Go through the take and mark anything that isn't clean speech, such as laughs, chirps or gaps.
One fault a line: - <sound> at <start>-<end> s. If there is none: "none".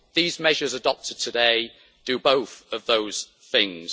none